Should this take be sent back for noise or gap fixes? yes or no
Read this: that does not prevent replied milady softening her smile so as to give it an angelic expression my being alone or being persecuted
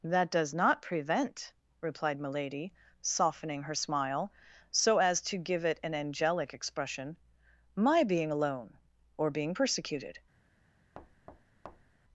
yes